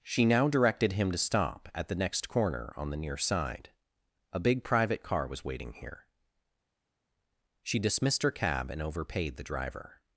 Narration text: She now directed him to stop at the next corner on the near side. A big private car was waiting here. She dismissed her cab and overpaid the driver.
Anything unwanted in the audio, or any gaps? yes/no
no